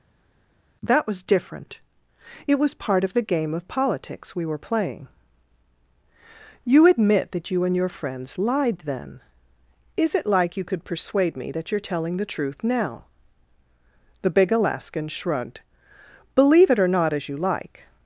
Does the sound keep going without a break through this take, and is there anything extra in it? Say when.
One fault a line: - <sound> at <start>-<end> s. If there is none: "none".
none